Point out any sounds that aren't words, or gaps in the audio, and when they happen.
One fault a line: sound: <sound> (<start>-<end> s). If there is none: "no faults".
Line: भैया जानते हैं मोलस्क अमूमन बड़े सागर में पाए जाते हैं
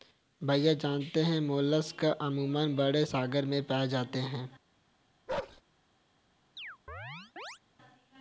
sound: bark (5.3-5.6 s)
sound: chirp (6.6-7.6 s)